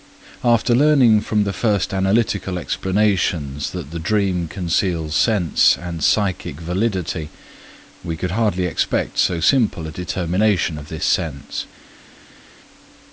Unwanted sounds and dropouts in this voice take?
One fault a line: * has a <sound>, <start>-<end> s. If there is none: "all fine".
all fine